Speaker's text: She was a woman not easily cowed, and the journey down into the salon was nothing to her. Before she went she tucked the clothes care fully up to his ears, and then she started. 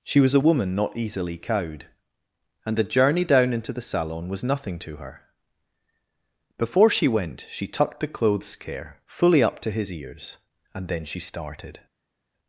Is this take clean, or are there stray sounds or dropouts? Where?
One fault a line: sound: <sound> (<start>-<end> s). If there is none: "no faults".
no faults